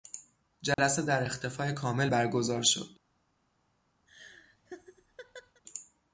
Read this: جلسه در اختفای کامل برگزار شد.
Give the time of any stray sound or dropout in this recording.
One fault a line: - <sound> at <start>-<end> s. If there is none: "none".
- dropout at 0.7-0.8 s
- laugh at 4.1-5.6 s